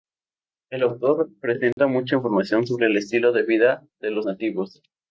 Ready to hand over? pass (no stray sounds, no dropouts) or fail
fail